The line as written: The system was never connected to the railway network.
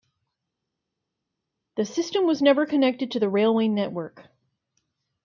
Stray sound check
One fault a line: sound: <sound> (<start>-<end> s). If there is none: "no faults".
no faults